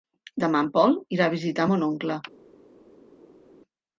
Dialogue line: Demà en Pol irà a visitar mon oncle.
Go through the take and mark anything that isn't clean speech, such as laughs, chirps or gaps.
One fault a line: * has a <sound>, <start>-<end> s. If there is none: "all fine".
all fine